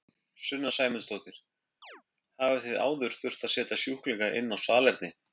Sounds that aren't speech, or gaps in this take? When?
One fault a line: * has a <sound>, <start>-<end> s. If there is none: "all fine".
* has a chirp, 1.8-2.0 s